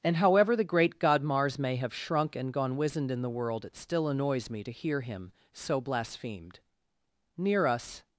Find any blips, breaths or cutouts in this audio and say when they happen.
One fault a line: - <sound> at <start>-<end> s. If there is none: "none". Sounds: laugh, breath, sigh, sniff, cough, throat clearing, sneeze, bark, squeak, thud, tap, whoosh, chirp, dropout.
none